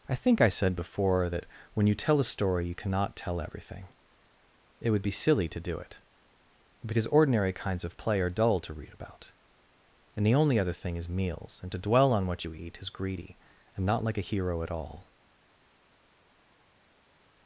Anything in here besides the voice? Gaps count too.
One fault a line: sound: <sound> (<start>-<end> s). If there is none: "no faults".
no faults